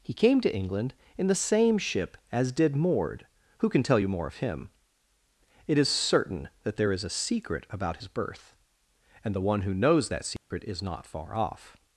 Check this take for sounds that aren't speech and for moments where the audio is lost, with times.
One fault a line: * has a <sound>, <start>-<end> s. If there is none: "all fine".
* has a dropout, 10.4-10.5 s